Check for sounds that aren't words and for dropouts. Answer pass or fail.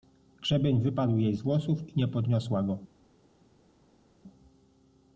pass